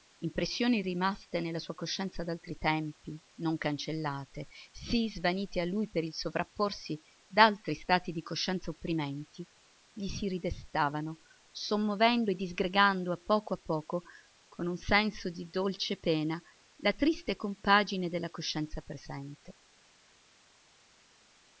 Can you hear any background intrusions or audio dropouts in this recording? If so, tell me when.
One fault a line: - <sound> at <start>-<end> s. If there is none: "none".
none